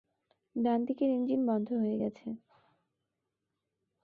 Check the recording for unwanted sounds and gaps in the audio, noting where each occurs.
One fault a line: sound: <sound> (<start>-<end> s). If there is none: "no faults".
no faults